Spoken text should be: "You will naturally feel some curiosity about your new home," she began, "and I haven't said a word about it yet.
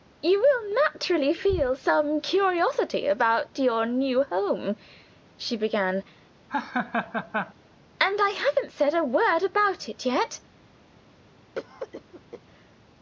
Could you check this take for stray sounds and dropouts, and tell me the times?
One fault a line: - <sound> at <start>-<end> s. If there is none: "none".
- laugh at 6.5-7.5 s
- cough at 11.6-12.4 s